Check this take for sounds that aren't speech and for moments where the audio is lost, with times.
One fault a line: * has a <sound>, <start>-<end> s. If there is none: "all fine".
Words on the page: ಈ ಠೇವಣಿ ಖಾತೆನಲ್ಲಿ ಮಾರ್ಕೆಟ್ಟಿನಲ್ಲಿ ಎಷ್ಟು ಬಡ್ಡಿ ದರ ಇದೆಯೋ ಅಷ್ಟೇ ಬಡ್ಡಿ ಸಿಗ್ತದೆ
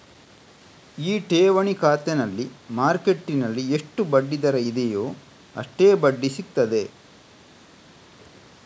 all fine